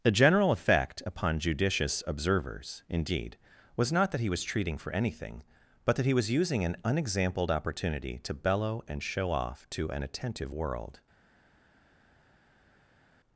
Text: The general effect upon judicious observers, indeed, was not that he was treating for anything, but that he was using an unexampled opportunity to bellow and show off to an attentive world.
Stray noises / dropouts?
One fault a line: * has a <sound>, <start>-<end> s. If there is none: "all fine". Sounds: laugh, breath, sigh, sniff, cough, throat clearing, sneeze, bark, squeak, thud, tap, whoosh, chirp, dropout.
all fine